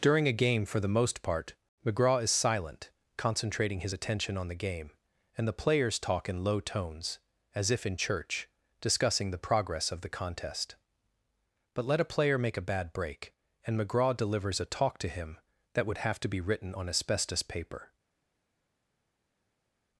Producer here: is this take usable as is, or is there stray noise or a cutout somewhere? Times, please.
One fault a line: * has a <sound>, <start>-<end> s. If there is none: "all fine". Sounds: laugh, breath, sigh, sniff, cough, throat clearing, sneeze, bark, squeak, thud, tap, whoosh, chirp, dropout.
all fine